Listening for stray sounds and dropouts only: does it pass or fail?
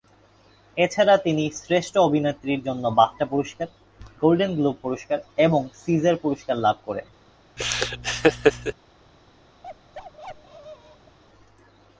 fail